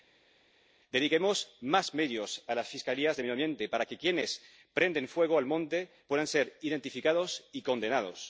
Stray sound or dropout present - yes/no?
no